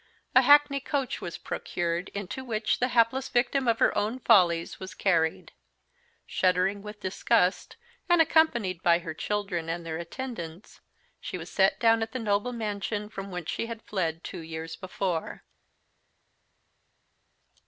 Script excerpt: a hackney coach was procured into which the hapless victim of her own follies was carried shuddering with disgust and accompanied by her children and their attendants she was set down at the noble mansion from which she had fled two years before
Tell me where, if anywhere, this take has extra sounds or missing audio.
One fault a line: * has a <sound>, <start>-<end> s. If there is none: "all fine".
all fine